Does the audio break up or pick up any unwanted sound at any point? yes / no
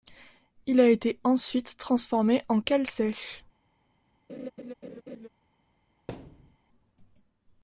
yes